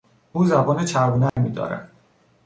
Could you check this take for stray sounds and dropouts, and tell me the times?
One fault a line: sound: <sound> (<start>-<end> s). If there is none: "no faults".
sound: dropout (1.3-1.4 s)